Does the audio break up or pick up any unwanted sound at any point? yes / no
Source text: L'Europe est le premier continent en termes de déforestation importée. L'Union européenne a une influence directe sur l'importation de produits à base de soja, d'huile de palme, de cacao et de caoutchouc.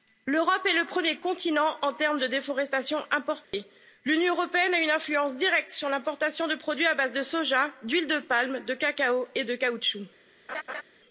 yes